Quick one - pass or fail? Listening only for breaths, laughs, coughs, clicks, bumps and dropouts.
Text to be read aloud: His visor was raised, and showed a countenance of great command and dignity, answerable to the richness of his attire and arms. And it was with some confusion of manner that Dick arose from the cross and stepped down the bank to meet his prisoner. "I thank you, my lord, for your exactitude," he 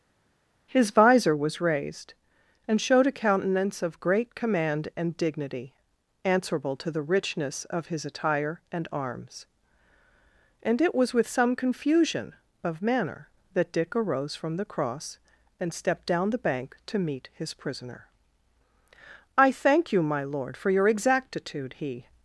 pass